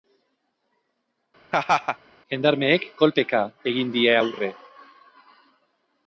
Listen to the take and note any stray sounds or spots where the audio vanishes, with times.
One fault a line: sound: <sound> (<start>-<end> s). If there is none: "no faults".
sound: laugh (1.5-2.0 s)